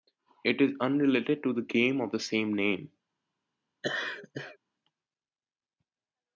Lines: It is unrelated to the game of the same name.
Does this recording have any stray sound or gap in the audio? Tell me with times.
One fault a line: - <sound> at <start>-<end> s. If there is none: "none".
- laugh at 3.8-4.6 s